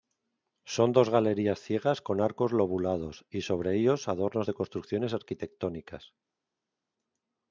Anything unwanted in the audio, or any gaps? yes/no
no